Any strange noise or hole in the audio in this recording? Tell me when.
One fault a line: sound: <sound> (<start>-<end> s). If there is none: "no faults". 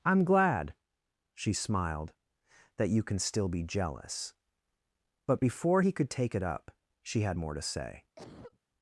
sound: cough (8.2-8.6 s)